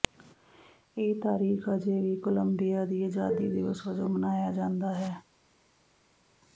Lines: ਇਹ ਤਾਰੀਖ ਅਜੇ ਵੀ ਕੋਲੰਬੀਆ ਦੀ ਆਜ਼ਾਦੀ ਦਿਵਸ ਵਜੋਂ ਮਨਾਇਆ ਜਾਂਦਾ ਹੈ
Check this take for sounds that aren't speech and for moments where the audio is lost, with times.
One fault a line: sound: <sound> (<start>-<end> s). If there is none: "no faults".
no faults